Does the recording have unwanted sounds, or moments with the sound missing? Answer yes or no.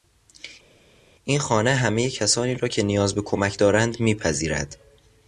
no